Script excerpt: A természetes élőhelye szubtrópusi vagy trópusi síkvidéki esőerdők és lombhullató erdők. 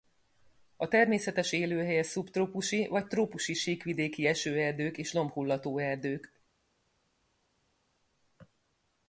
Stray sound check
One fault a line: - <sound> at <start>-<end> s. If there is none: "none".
none